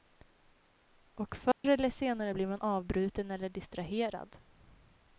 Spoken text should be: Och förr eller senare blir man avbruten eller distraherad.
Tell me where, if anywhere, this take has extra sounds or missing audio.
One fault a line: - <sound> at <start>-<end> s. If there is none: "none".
- dropout at 1.5-1.6 s